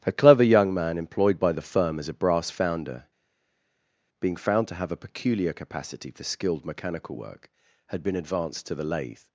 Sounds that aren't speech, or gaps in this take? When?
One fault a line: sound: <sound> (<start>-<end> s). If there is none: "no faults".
no faults